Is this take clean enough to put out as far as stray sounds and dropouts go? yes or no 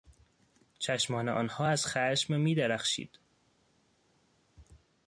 yes